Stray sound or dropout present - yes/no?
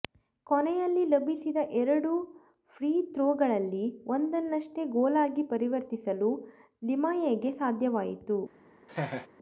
yes